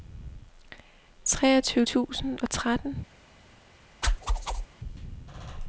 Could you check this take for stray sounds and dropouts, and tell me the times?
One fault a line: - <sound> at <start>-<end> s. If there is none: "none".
- whoosh at 4.0-4.7 s